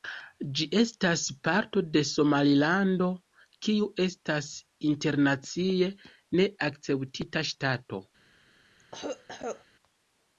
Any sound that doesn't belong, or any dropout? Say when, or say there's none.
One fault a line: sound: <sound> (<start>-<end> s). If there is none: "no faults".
sound: cough (8.8-9.7 s)